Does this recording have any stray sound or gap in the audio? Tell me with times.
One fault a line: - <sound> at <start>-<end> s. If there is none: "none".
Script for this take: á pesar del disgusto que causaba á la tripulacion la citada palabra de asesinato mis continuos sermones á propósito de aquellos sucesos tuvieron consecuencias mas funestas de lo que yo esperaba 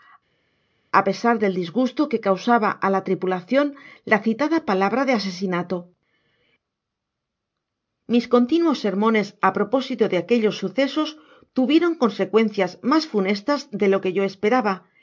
none